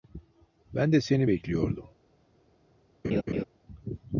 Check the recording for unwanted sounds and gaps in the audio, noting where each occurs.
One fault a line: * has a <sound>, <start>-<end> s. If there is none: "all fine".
* has a laugh, 3.0-3.4 s